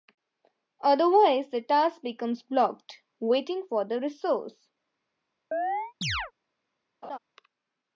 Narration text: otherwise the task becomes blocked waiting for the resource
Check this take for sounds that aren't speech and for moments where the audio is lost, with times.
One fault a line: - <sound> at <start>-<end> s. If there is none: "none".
- chirp at 5.5-6.3 s
- laugh at 7.0-7.2 s